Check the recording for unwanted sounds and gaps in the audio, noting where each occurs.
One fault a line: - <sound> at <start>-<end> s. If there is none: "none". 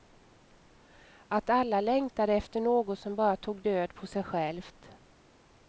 none